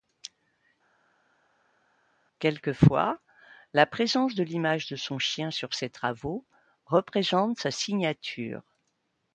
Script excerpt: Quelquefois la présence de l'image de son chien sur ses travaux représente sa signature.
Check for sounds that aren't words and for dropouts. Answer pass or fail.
pass